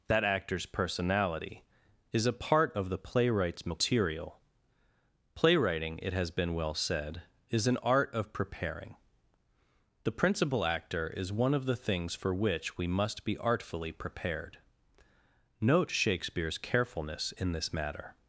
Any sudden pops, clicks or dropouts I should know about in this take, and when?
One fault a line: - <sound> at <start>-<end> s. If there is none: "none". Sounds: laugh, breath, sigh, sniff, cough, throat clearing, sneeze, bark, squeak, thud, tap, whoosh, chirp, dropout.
none